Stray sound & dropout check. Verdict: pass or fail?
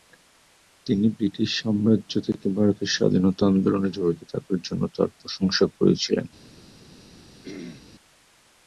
fail